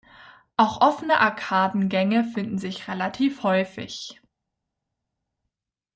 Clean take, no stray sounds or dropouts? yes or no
yes